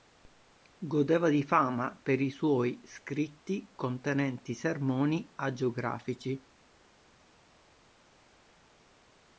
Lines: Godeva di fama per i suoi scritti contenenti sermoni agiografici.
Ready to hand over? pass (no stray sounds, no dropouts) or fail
pass